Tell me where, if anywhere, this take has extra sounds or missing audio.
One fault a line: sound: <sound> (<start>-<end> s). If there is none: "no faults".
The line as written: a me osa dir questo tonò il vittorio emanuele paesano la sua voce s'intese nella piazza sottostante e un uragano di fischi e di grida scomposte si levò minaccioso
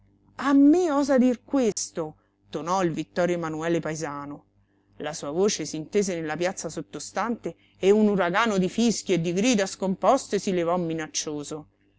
sound: dropout (1.7-1.8 s)